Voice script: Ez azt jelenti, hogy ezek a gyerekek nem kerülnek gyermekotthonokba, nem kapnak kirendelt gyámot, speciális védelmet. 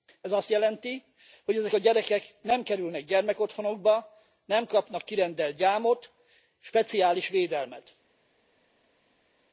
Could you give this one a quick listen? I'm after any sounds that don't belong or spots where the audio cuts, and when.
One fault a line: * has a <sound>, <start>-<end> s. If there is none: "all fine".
all fine